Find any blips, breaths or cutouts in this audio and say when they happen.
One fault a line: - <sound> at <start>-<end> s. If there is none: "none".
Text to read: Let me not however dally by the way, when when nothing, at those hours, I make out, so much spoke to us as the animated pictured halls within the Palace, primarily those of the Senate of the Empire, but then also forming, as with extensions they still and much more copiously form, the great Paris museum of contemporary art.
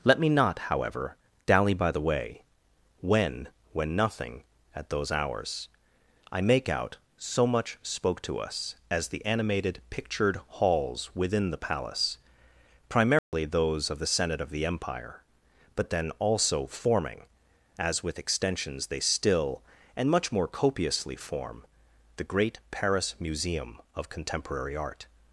- dropout at 13.2-13.3 s